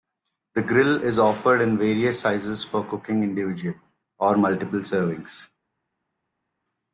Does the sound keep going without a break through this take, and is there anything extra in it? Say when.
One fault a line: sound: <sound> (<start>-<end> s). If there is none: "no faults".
no faults